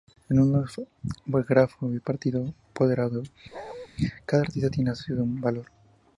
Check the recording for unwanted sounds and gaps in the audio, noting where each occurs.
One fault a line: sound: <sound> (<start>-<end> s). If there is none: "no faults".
sound: bark (3.5-3.9 s)